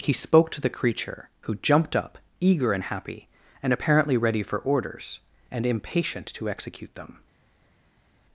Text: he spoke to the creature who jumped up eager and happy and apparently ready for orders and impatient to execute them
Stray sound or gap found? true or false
false